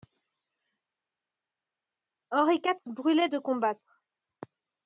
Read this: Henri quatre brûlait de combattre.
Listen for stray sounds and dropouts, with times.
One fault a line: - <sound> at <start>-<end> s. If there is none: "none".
none